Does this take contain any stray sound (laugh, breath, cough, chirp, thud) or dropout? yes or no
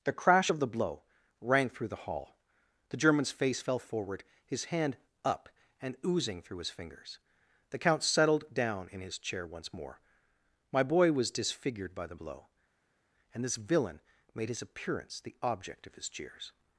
no